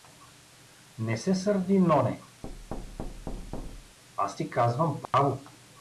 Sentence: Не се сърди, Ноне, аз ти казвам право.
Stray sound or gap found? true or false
true